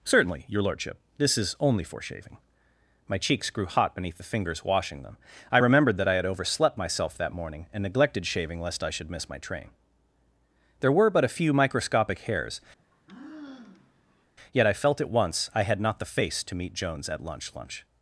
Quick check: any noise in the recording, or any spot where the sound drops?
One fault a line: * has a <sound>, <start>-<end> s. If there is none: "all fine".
* has a sigh, 12.8-14.3 s